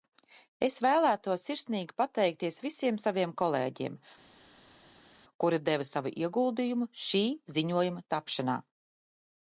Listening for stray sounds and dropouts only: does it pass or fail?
pass